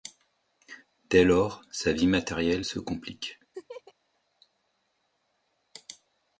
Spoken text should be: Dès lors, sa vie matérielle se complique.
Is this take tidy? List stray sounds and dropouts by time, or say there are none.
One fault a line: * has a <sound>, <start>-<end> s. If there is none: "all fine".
* has a laugh, 3.5-3.9 s